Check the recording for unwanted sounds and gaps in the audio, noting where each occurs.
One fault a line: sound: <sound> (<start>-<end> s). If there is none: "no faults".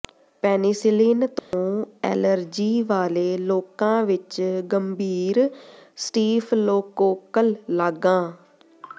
sound: dropout (1.4-1.5 s)